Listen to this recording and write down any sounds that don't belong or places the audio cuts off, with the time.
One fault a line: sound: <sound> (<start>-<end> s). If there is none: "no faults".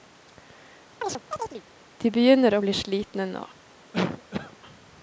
sound: chirp (1.0-1.6 s)
sound: cough (3.9-4.6 s)